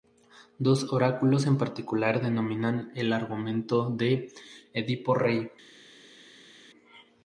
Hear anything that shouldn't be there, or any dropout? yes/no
no